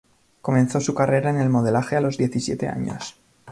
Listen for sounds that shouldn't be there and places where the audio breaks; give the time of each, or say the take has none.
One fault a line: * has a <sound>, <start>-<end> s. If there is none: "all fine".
all fine